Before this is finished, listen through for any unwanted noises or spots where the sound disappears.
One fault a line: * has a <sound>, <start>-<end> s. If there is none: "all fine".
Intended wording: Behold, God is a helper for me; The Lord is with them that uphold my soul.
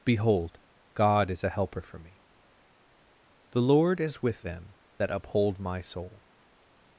all fine